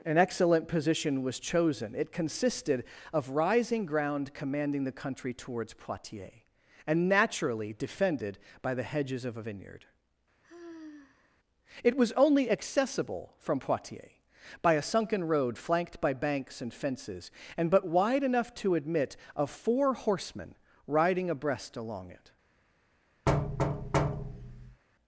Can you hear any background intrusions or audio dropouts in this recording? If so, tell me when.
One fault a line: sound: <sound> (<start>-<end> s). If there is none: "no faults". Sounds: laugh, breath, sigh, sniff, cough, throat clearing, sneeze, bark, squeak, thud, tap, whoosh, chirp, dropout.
sound: sigh (10.4-11.4 s)
sound: thud (23.3-24.8 s)